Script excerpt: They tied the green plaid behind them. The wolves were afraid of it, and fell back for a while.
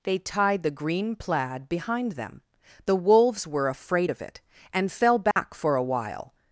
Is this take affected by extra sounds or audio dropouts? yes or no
yes